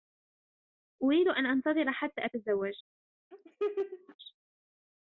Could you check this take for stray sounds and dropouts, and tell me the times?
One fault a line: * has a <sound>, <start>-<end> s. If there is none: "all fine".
* has a laugh, 3.3-4.2 s